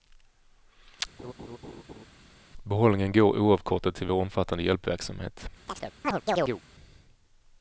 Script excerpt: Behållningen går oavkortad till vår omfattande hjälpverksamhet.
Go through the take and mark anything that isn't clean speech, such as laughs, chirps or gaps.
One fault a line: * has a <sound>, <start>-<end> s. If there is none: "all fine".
* has a laugh, 1.2-2.1 s
* has a chirp, 5.7-6.6 s